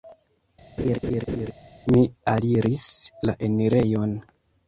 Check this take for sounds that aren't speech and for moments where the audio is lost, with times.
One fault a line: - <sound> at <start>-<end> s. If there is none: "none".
- laugh at 0.8-1.5 s